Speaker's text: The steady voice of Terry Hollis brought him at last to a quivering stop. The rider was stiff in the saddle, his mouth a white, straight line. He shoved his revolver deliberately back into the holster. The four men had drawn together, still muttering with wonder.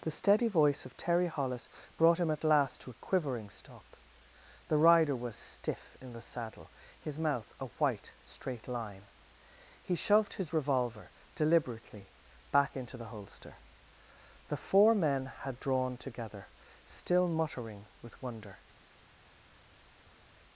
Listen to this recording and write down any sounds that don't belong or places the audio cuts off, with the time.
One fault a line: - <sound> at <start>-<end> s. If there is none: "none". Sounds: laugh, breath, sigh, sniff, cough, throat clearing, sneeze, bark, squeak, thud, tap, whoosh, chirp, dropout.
none